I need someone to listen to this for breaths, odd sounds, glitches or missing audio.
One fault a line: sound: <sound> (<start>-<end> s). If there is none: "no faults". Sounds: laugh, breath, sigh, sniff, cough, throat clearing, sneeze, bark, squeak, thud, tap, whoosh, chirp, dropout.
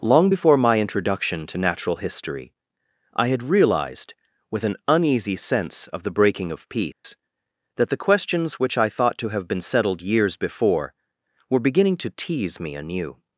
sound: dropout (6.9-7.0 s)